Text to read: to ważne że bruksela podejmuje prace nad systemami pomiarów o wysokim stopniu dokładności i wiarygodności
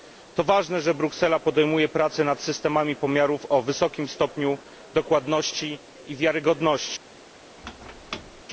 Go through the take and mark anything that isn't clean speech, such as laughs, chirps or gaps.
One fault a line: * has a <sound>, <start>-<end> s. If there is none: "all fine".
* has a squeak, 7.6-8.4 s